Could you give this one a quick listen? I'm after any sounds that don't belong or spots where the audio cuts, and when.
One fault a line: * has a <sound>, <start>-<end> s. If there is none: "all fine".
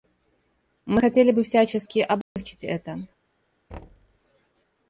* has a dropout, 2.2-2.4 s
* has a thud, 3.7-4.2 s